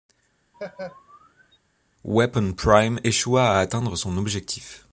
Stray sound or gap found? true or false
true